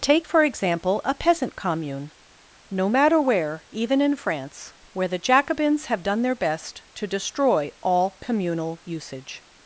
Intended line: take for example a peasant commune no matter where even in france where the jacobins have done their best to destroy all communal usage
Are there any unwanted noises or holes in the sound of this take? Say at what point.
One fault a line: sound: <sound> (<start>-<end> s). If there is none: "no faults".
no faults